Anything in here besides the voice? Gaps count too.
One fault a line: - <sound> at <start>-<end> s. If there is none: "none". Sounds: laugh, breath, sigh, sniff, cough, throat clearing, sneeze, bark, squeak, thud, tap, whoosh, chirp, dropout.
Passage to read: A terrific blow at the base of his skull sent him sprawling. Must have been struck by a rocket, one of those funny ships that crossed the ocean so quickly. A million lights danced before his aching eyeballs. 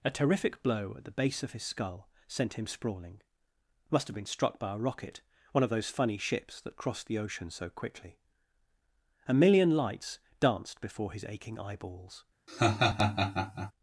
- laugh at 12.5-13.7 s